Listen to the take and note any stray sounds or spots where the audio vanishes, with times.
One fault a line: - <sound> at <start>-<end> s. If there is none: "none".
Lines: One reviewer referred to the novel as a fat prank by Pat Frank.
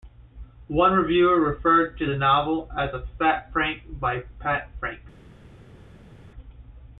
none